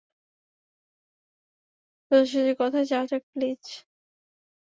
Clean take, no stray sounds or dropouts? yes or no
yes